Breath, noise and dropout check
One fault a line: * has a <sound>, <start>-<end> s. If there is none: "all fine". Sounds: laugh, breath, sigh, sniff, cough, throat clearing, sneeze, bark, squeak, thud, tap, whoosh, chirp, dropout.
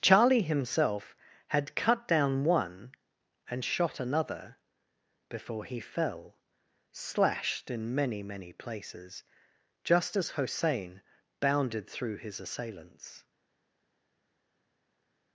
all fine